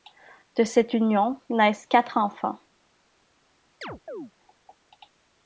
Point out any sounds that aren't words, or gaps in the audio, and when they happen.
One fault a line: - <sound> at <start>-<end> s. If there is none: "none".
- chirp at 3.8-4.3 s